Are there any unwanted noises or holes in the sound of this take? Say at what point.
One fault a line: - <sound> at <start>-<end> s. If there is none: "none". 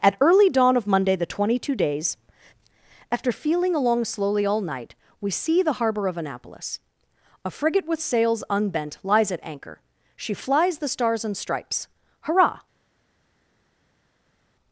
none